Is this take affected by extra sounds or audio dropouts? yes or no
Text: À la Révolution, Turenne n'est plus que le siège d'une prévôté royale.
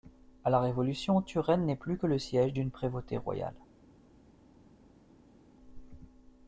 no